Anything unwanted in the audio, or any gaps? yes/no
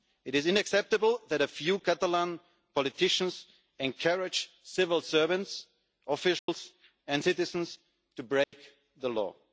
yes